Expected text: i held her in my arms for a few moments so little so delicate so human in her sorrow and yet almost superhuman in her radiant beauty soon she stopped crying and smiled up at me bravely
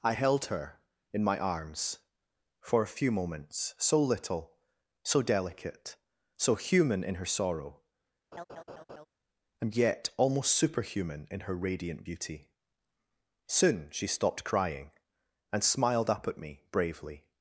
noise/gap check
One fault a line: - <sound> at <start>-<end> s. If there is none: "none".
- laugh at 8.3-9.1 s